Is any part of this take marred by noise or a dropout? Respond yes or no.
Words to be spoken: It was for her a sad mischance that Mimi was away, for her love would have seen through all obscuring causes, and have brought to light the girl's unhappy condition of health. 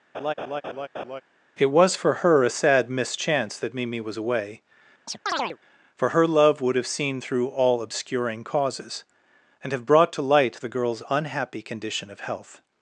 yes